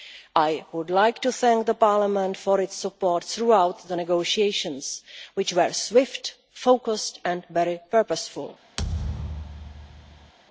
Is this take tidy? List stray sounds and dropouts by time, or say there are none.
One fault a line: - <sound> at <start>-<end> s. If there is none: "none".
- thud at 8.8-10.3 s